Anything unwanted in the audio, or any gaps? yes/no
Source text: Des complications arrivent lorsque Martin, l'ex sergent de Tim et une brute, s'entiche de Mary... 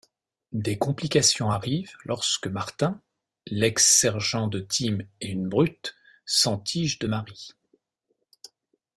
no